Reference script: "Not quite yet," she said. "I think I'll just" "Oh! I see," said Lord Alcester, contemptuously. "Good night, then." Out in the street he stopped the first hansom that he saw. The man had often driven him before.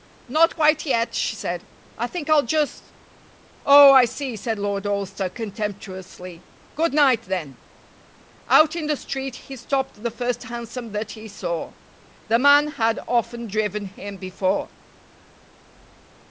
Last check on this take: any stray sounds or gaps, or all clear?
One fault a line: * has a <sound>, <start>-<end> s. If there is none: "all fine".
all fine